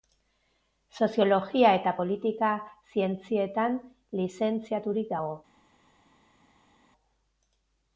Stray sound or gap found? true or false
false